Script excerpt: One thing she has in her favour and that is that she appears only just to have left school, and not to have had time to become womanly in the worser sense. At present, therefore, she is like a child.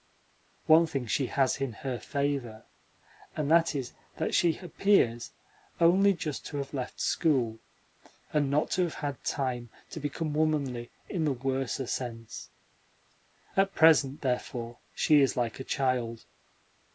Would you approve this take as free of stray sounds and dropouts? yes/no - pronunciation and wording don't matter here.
yes